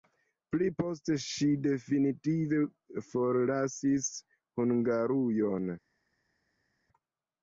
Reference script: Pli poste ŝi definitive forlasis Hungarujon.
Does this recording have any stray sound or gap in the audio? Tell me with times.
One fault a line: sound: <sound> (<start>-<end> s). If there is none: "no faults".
no faults